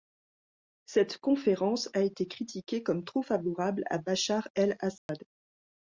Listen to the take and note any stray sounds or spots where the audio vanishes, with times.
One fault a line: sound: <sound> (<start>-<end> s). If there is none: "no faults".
sound: dropout (5.0-5.1 s)